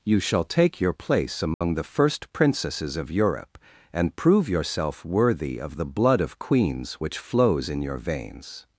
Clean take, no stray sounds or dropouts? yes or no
no